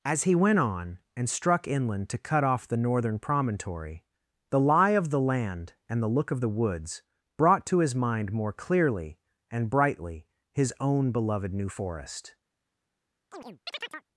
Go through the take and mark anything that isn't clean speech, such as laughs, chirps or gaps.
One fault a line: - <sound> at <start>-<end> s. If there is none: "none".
- chirp at 13.3-14.1 s